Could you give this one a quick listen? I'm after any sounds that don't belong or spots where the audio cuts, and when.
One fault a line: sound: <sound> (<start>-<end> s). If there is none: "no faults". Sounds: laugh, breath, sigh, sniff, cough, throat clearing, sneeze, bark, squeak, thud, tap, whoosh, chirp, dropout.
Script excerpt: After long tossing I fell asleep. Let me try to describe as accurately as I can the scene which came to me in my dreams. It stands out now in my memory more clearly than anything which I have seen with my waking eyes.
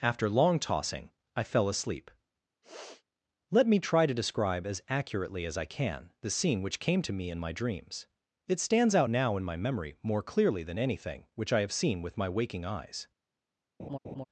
sound: sniff (2.6-3.0 s)
sound: laugh (13.8-14.2 s)